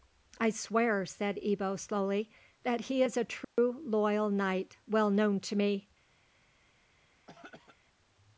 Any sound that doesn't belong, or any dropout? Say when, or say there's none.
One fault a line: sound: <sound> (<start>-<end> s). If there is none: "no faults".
sound: dropout (3.4-3.6 s)
sound: throat clearing (7.3-7.8 s)